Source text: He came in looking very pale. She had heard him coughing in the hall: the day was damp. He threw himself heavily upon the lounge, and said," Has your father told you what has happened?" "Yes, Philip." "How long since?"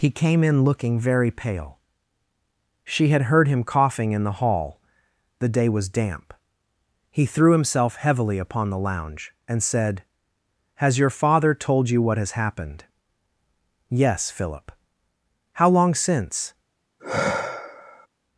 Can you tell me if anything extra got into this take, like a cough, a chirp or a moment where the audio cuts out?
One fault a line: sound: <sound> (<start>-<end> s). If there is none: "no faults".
sound: sigh (17.0-18.1 s)